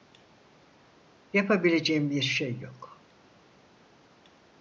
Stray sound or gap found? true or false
false